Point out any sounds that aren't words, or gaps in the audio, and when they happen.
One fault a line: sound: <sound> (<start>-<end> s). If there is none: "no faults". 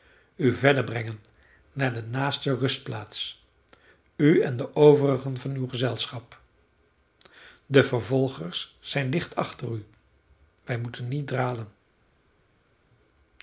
no faults